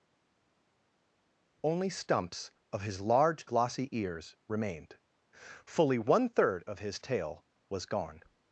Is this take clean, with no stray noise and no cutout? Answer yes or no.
yes